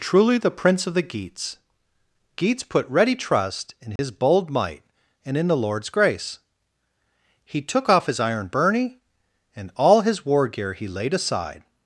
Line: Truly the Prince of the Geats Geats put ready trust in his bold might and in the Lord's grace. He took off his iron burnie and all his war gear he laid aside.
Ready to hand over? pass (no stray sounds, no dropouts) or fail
fail